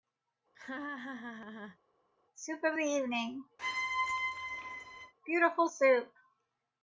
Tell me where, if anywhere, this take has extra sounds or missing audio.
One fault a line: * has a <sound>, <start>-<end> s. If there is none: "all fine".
* has a laugh, 0.5-1.8 s
* has a squeak, 3.6-5.1 s